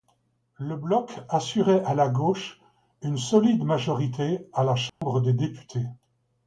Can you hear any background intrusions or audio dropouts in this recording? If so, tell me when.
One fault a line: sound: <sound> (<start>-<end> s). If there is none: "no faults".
sound: dropout (4.9-5.0 s)